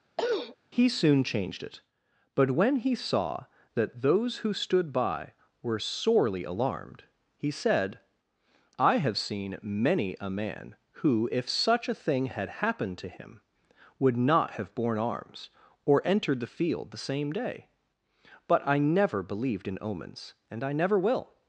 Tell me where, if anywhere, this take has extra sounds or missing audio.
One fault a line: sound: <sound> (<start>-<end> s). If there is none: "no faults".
sound: throat clearing (0.2-0.6 s)